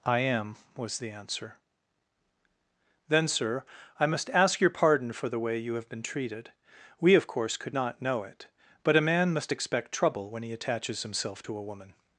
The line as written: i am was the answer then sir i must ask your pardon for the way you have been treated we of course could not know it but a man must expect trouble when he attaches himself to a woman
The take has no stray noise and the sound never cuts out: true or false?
true